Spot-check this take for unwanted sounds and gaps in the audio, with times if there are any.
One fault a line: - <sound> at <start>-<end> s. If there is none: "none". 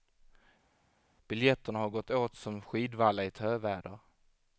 none